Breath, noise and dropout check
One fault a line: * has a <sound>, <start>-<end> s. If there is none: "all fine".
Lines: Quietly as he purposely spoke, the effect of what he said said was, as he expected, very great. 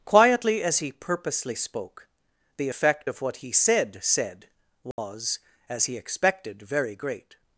* has a dropout, 4.9-5.0 s